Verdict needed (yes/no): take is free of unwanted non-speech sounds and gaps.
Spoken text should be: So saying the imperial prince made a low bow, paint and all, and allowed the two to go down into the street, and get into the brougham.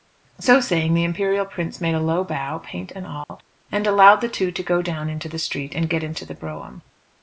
no